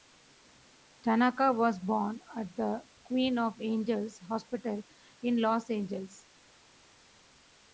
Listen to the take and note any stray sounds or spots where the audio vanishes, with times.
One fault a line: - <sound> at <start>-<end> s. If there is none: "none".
none